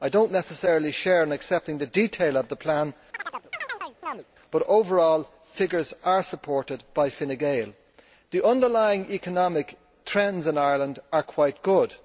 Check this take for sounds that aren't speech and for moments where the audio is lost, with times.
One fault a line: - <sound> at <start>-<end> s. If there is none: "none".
- chirp at 3.1-4.2 s